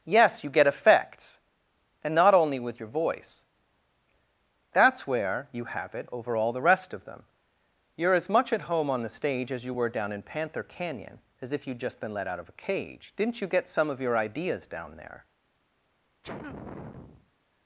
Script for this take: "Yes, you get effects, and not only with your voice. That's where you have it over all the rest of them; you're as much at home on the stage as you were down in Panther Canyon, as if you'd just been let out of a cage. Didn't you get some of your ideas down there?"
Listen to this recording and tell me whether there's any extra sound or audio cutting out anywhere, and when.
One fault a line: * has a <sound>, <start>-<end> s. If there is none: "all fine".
* has a sneeze, 16.2-17.3 s